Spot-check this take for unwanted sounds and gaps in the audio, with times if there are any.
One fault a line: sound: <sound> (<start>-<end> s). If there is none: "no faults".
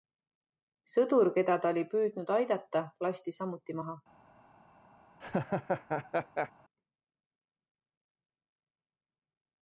sound: laugh (5.2-6.5 s)